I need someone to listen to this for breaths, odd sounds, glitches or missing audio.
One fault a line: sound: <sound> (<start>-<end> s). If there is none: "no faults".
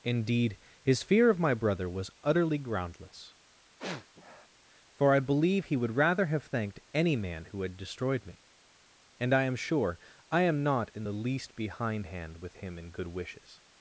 sound: sniff (3.8-4.5 s)